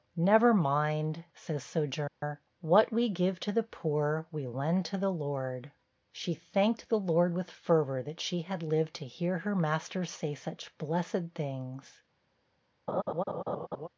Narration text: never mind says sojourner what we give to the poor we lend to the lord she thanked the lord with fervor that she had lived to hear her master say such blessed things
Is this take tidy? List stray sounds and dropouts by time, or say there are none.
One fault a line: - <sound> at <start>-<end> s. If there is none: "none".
- dropout at 2.1-2.2 s
- laugh at 12.9-13.9 s